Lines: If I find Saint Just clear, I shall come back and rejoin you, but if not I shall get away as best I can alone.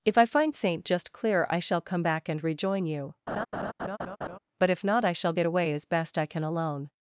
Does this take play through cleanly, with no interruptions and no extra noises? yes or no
no